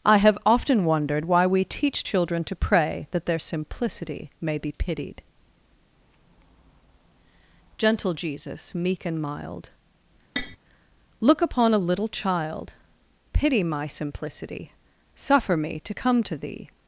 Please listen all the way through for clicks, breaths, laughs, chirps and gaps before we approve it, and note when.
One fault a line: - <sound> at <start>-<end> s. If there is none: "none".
- tap at 10.4-10.6 s